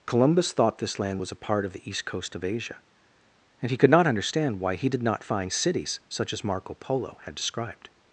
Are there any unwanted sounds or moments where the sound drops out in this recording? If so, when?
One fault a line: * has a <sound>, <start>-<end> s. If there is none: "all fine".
all fine